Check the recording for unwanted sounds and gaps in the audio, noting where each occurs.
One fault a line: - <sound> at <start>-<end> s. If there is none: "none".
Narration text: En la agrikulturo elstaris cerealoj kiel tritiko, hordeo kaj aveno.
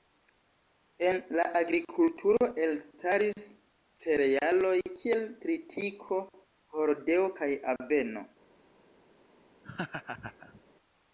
- laugh at 9.6-10.6 s